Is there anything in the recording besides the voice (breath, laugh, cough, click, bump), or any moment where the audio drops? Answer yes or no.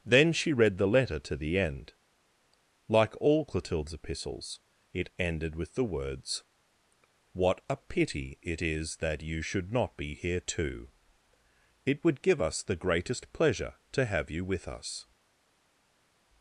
no